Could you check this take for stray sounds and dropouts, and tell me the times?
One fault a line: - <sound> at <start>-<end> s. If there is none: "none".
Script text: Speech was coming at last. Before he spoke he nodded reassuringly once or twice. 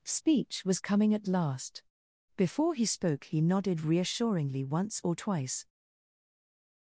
none